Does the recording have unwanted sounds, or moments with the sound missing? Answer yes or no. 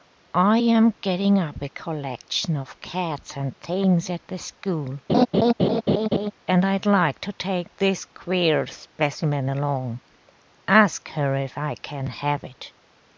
yes